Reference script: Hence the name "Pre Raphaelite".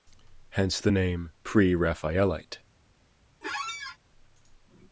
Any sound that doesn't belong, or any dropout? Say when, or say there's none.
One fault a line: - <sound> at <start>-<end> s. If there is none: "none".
- squeak at 3.4-4.0 s